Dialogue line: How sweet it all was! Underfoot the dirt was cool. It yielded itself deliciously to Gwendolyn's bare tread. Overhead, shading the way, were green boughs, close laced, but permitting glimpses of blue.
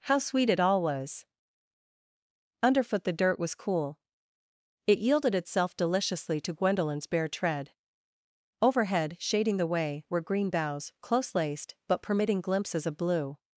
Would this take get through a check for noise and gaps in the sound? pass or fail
pass